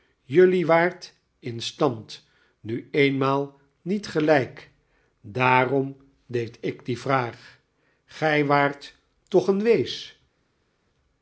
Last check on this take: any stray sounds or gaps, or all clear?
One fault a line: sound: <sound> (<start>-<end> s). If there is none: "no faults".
no faults